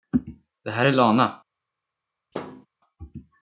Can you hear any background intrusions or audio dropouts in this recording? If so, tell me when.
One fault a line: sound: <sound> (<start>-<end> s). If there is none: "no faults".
sound: thud (2.3-2.7 s)